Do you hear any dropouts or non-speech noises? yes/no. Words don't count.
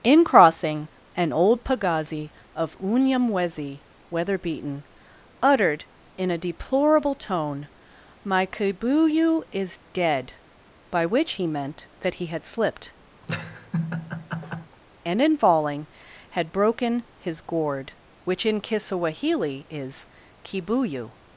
yes